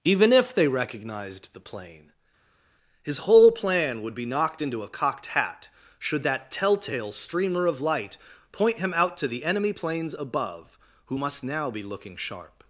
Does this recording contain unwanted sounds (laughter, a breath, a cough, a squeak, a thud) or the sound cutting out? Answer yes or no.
no